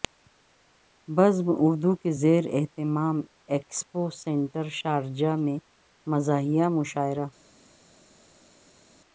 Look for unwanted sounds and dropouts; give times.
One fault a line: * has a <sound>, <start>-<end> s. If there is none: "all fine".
all fine